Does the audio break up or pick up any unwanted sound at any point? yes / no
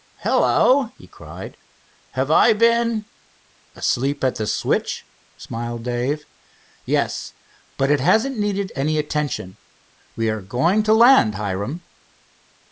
no